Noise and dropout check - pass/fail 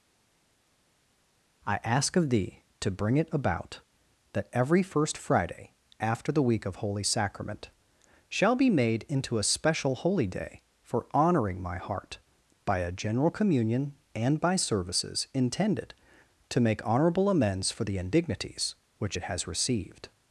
pass